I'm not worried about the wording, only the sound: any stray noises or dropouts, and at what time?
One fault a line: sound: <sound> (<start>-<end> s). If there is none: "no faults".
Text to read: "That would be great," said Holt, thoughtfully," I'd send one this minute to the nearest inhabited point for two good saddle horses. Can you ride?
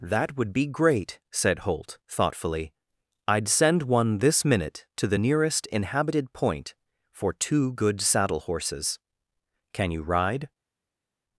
no faults